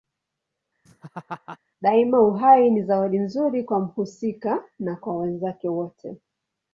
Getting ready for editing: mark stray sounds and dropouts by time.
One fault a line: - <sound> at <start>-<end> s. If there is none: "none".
- laugh at 0.9-1.6 s